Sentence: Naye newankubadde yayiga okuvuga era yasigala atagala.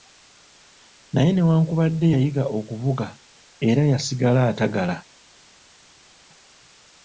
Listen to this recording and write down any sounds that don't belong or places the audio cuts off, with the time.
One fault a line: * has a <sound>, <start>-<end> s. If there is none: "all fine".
all fine